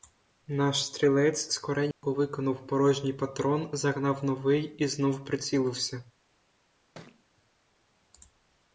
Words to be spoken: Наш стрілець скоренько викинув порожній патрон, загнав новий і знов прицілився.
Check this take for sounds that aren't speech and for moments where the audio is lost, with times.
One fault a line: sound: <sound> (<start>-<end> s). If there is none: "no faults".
sound: dropout (1.9-2.0 s)
sound: thud (6.9-7.2 s)